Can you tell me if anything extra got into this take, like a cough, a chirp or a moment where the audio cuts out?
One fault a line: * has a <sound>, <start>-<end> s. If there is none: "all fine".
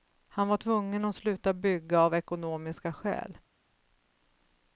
all fine